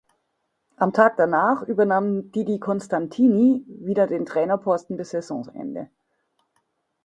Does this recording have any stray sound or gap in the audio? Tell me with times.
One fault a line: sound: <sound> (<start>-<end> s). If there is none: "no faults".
no faults